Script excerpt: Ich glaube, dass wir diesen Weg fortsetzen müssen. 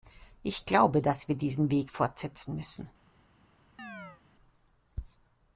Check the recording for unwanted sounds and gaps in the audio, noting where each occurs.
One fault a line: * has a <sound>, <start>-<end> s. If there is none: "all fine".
* has a chirp, 3.8-4.2 s